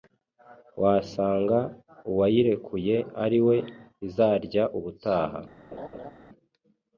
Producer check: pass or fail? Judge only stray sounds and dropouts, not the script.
fail